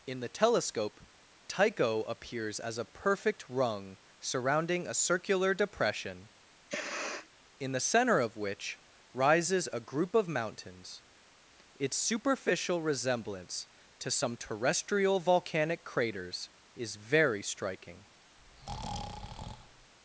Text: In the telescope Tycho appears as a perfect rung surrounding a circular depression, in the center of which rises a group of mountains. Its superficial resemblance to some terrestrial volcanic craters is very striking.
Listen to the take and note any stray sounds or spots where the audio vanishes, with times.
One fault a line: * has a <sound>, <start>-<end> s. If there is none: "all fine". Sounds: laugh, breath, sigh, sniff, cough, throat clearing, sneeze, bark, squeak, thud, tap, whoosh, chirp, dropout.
* has a sniff, 6.7-7.3 s
* has a breath, 18.4-19.9 s